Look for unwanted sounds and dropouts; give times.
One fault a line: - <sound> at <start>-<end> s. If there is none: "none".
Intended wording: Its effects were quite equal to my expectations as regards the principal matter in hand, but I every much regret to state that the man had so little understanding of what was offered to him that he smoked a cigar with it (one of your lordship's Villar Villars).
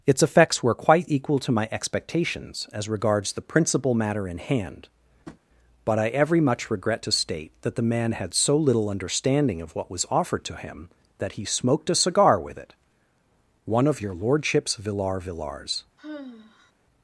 - tap at 5.3-5.4 s
- sigh at 16.0-16.7 s